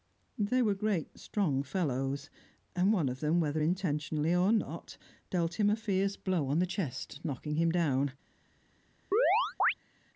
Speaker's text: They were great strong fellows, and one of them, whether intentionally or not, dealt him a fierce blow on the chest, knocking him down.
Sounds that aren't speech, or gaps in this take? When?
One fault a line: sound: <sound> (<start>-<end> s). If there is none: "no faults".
sound: chirp (9.1-9.7 s)